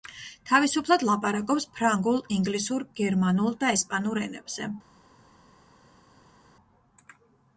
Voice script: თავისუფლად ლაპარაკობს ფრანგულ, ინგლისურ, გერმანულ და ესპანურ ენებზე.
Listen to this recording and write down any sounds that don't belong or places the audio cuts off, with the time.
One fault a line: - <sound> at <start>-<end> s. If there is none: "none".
none